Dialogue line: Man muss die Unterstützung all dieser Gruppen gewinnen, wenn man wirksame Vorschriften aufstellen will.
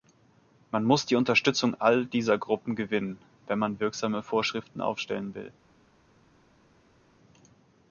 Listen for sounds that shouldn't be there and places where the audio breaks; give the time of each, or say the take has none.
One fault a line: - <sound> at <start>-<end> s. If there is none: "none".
none